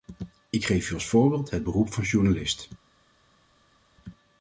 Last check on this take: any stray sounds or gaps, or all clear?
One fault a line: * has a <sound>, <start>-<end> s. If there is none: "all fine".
all fine